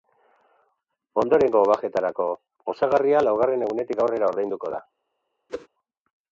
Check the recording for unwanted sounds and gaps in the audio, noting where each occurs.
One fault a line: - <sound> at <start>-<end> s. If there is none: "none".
- whoosh at 5.5-5.7 s